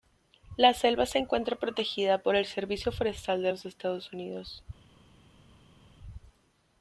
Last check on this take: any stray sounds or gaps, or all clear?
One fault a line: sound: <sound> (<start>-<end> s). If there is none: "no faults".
no faults